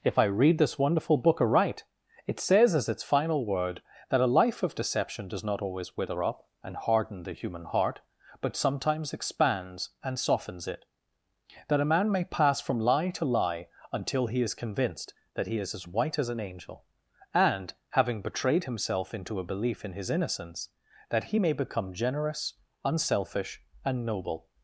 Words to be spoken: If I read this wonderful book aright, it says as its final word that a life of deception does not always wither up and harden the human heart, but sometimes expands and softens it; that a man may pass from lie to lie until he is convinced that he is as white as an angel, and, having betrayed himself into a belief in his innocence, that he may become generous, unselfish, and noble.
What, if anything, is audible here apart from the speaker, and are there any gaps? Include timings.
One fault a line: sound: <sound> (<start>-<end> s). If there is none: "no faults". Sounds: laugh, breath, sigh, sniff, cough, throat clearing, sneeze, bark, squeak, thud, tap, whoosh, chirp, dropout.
no faults